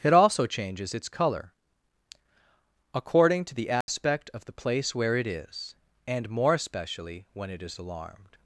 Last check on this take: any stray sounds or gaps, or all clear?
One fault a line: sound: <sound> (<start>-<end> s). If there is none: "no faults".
sound: dropout (3.8-3.9 s)